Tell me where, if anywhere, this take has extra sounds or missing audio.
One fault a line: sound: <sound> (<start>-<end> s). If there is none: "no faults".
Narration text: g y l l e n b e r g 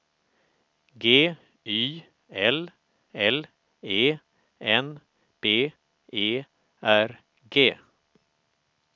no faults